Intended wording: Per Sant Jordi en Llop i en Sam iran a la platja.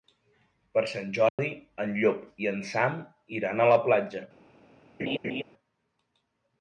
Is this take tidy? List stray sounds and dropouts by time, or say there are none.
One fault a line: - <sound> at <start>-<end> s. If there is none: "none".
- dropout at 1.3-1.4 s
- laugh at 5.0-5.4 s